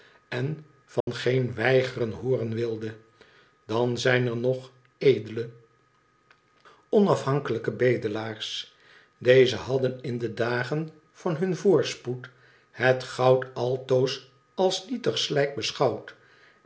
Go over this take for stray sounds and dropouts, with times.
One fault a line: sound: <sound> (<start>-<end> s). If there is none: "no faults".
sound: dropout (1.0-1.1 s)